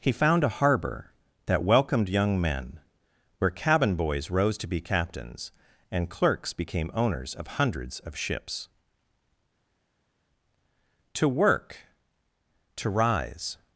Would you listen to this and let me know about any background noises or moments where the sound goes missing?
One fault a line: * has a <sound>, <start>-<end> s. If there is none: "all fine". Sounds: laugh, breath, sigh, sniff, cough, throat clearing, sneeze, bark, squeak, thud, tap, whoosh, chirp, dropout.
all fine